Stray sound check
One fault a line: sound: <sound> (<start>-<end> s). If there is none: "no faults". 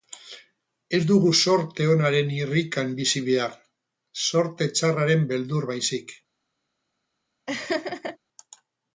sound: laugh (7.5-8.2 s)